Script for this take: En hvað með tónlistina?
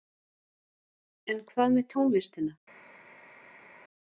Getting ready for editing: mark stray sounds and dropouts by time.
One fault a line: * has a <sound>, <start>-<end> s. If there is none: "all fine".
all fine